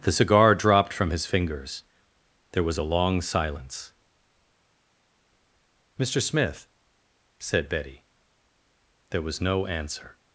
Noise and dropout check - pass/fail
pass